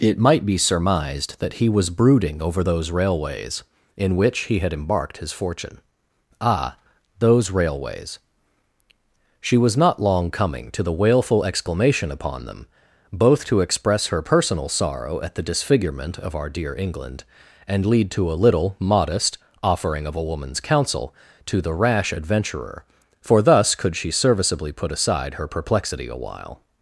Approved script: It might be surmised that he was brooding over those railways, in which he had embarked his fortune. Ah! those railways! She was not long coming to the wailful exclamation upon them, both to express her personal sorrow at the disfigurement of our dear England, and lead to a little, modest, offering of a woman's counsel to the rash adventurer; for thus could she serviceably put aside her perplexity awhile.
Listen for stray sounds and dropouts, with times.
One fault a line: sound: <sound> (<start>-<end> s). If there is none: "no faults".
no faults